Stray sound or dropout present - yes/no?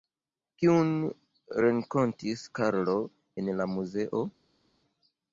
no